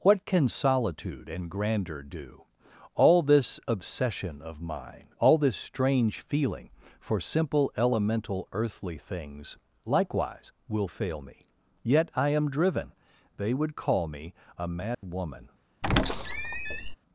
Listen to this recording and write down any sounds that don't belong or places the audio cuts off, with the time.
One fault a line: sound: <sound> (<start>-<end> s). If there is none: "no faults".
sound: dropout (14.9-15.0 s)
sound: squeak (15.8-17.0 s)